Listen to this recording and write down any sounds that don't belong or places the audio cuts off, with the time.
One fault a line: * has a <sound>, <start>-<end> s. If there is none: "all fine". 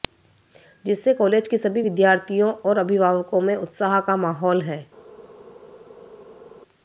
all fine